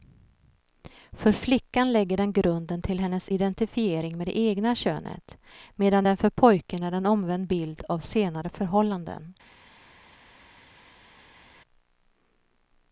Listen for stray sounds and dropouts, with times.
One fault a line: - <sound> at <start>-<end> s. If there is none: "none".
none